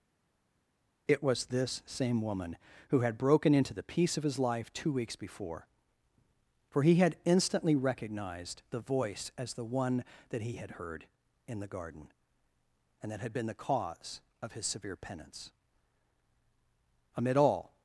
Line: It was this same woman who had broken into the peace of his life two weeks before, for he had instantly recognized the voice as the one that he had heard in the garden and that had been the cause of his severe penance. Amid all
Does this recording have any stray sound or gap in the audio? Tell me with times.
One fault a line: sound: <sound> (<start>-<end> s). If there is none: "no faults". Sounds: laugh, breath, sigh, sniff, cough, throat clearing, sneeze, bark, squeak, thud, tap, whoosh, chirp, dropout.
no faults